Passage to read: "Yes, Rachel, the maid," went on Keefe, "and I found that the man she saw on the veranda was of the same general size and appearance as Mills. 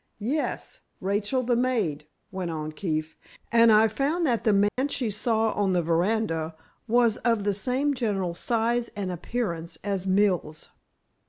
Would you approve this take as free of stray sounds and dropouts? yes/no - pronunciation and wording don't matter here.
no